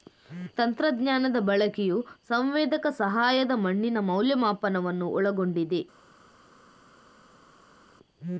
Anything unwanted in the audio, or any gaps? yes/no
no